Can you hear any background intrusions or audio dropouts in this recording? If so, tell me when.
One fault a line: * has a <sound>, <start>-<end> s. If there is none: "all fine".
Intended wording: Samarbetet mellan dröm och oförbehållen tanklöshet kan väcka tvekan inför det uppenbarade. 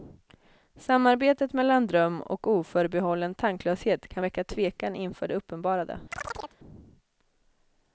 * has a chirp, 6.1-6.6 s